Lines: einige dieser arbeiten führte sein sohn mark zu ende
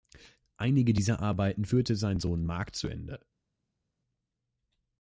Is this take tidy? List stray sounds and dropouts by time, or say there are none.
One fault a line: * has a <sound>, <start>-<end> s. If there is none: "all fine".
all fine